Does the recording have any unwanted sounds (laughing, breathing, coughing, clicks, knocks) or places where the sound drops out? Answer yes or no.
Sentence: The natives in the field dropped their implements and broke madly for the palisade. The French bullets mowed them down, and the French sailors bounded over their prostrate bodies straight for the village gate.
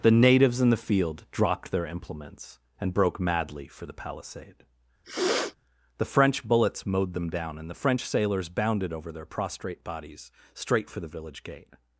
yes